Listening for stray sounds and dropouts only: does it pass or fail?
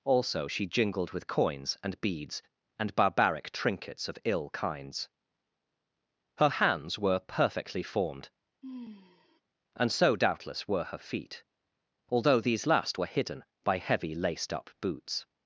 fail